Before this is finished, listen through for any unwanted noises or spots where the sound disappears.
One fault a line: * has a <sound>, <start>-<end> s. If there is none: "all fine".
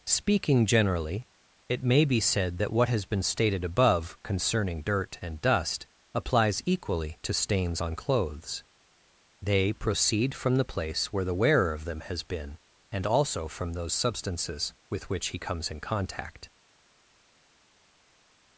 all fine